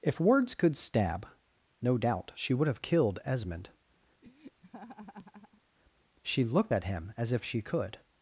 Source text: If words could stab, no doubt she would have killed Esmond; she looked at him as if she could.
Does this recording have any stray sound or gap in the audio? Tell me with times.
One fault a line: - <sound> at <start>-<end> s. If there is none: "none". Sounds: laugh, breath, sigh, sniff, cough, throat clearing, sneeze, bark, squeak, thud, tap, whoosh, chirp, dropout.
- laugh at 4.2-5.6 s